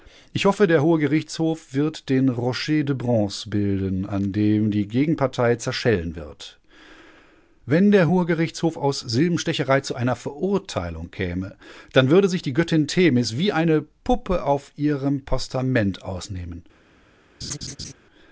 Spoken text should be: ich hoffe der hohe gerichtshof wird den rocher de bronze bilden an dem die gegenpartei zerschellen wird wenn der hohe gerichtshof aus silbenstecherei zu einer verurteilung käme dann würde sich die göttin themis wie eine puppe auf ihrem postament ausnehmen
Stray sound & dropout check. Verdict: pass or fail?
fail